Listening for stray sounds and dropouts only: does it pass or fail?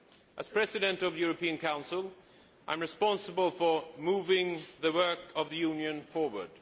pass